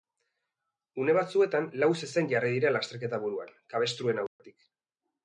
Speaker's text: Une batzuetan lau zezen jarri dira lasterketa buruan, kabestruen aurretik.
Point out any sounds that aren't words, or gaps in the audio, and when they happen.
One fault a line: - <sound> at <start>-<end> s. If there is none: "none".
- dropout at 4.3-4.4 s